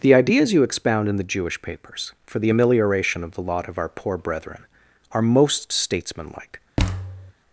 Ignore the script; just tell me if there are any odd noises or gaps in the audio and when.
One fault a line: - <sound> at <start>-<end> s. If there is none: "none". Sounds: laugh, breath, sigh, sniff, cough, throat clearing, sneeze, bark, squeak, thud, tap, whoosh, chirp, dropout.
- thud at 6.8-7.3 s